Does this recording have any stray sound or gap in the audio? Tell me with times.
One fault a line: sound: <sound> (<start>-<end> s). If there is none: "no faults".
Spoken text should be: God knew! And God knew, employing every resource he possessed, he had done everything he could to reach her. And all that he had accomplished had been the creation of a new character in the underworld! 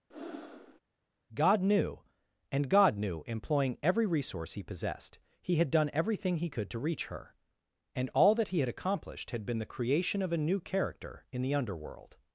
sound: breath (0.1-0.8 s)